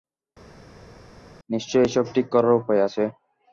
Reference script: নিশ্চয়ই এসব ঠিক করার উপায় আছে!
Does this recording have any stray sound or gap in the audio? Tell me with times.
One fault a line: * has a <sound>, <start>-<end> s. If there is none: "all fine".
all fine